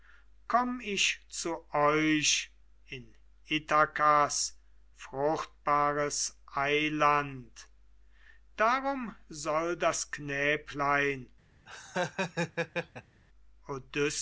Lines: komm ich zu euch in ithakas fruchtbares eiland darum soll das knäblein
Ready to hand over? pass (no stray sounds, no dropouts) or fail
fail